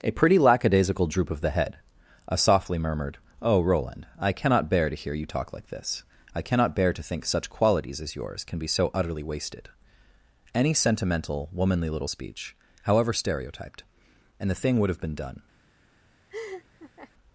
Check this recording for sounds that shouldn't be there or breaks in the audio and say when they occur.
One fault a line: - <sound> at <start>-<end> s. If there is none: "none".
- laugh at 16.3-17.1 s